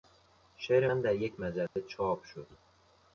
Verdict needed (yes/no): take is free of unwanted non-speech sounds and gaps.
no